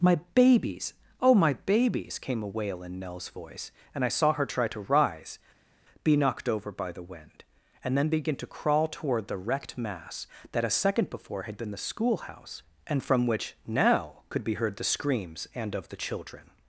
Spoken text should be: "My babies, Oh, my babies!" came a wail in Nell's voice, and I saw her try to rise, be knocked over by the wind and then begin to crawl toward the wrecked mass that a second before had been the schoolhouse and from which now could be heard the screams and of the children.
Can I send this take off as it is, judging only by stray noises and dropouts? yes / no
yes